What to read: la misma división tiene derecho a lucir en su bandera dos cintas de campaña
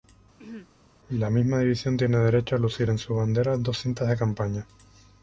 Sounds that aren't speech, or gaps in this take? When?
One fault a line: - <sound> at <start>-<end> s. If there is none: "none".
- throat clearing at 0.4-0.7 s